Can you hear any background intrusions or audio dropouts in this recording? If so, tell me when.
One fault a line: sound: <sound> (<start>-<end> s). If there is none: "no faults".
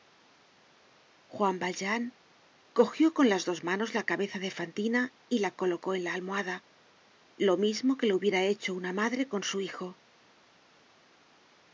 no faults